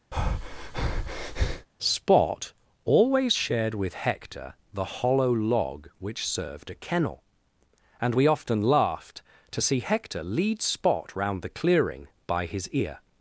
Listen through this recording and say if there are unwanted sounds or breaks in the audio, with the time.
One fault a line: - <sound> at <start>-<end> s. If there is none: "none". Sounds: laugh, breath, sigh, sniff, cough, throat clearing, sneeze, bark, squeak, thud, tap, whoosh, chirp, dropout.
- breath at 0.1-1.7 s